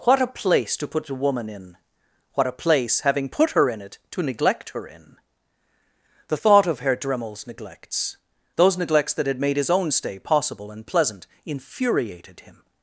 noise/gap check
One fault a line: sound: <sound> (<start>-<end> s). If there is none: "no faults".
no faults